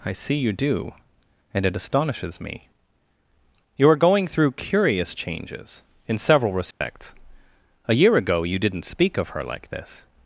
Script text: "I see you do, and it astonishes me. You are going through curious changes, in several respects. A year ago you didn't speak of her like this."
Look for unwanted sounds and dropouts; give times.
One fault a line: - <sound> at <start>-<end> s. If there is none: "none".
- dropout at 6.7-6.8 s